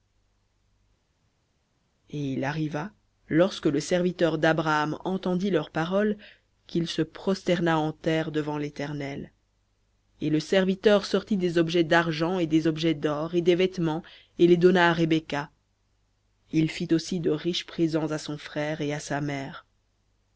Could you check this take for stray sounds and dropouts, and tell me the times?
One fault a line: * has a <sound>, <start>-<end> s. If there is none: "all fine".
all fine